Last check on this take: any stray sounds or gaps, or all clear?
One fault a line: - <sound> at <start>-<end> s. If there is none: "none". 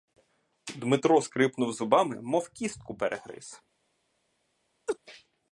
- laugh at 4.9-5.0 s